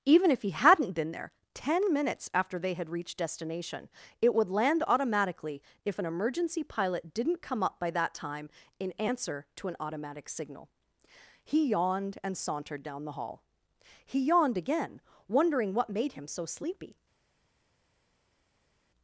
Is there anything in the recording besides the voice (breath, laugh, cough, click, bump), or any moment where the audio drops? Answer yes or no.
no